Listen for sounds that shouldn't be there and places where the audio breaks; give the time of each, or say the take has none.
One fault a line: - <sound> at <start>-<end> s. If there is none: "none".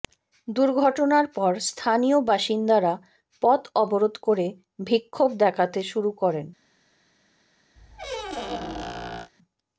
- squeak at 7.8-9.3 s